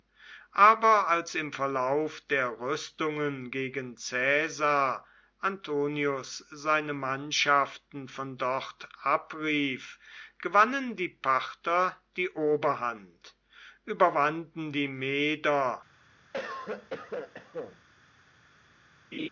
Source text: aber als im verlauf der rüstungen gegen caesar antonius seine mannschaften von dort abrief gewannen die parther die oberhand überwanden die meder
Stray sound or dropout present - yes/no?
yes